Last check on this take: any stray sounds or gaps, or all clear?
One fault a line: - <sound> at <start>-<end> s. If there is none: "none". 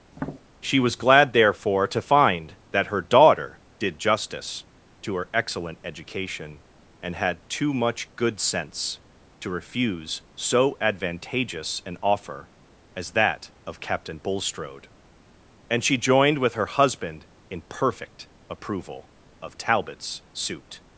- tap at 0.1-0.4 s